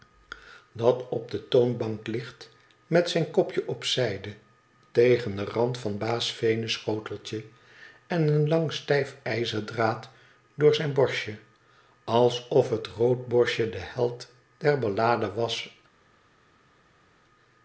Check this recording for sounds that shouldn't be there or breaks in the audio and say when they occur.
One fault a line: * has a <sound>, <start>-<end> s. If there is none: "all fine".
all fine